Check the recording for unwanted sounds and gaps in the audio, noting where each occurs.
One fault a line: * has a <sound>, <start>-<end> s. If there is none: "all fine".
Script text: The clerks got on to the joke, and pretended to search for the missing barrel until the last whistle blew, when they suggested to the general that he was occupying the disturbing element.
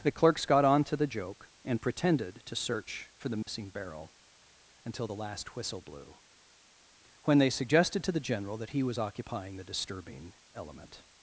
* has a dropout, 3.4-3.5 s